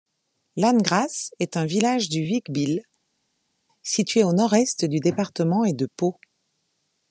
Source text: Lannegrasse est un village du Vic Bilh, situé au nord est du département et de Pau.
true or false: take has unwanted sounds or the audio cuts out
false